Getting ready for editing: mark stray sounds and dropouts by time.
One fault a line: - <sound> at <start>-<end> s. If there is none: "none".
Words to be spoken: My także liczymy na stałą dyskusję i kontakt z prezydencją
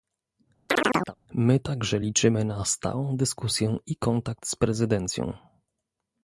- chirp at 0.7-1.2 s